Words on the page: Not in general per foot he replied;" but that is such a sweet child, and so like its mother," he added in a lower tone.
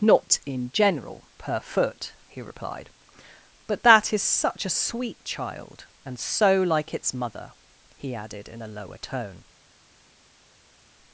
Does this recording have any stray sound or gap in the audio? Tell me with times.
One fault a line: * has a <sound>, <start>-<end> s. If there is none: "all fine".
all fine